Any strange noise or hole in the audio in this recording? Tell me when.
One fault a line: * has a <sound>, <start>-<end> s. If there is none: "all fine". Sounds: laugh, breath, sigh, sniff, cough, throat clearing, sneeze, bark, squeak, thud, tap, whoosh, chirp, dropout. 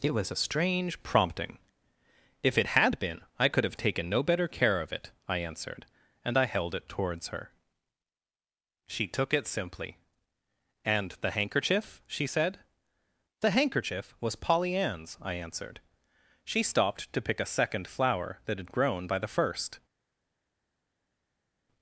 all fine